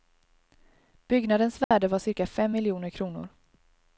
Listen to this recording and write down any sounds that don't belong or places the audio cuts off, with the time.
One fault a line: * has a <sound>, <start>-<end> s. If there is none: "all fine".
* has a dropout, 1.6-1.7 s